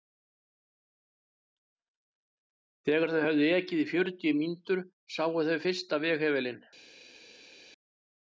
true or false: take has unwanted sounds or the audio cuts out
false